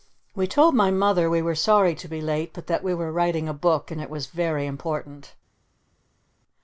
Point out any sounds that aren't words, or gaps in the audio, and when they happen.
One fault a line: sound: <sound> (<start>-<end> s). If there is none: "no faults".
no faults